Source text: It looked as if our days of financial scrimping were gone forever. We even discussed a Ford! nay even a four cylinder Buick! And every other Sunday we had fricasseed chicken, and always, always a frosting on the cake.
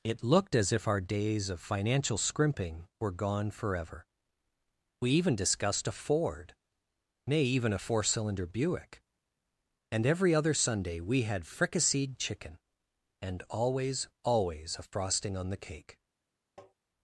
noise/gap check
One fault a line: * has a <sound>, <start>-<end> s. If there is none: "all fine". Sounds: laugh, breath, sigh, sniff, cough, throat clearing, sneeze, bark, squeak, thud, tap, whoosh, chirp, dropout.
* has a tap, 16.6-16.7 s